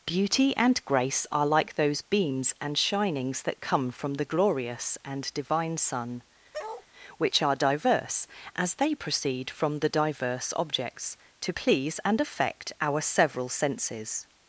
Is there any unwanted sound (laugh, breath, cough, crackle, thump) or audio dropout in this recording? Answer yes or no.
yes